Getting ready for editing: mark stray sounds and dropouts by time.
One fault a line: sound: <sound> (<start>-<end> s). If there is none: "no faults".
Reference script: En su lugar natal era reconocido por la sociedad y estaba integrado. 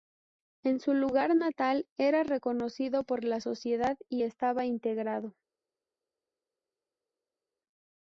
no faults